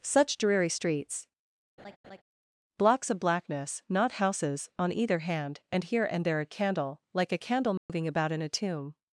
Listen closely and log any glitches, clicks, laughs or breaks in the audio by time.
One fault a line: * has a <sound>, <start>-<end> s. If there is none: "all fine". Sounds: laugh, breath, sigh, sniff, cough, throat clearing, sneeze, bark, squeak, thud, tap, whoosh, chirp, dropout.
* has a laugh, 1.8-2.2 s
* has a dropout, 7.8-7.9 s